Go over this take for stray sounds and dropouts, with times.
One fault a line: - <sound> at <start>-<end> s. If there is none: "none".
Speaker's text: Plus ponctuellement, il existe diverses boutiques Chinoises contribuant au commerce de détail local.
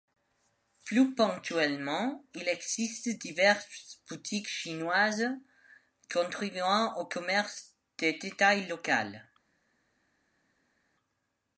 none